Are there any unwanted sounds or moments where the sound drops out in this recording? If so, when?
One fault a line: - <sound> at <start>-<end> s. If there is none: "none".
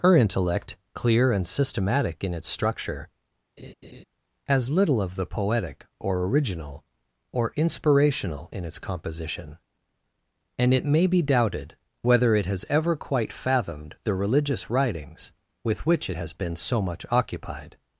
- laugh at 3.6-4.0 s